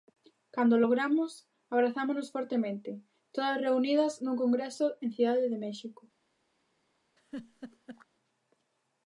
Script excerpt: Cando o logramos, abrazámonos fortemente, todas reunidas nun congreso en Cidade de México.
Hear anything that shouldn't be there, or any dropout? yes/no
yes